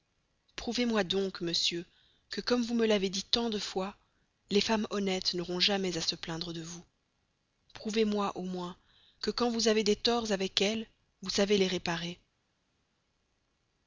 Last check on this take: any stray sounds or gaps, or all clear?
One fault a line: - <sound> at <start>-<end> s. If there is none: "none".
none